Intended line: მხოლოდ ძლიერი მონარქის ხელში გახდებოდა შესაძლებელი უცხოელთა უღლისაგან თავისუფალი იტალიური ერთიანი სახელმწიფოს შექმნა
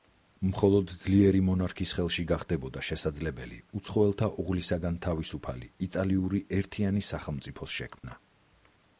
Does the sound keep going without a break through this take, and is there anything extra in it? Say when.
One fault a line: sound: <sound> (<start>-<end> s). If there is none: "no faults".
sound: dropout (8.0-8.0 s)